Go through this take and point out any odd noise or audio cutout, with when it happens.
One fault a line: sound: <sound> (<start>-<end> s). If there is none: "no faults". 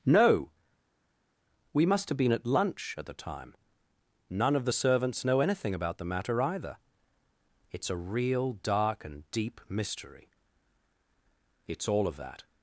no faults